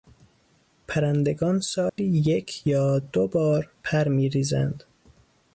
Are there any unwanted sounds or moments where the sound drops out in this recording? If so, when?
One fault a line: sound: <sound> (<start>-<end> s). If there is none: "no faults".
sound: dropout (1.9-2.0 s)